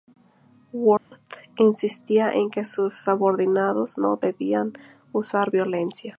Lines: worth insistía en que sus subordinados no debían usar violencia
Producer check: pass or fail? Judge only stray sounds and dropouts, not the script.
fail